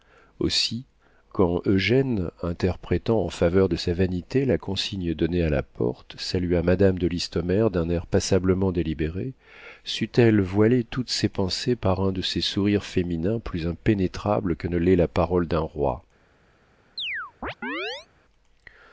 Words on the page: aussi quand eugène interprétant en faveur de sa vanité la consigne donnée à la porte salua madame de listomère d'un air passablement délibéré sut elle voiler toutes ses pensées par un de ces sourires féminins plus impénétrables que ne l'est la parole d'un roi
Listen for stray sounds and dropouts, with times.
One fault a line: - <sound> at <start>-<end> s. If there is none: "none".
- chirp at 17.0-18.1 s